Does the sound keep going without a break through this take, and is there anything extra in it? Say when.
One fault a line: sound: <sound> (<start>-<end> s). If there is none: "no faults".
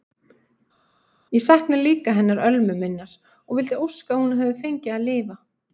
no faults